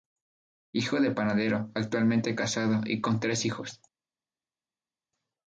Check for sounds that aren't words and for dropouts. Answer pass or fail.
pass